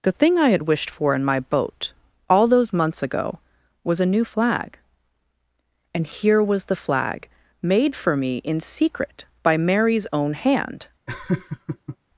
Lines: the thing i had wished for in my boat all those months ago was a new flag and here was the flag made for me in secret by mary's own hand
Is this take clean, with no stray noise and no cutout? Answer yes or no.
no